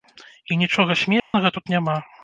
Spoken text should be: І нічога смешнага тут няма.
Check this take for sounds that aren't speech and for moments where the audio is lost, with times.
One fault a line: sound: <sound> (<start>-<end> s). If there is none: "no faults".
sound: dropout (1.2-1.3 s)